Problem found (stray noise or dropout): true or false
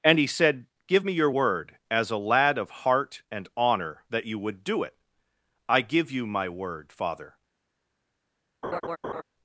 true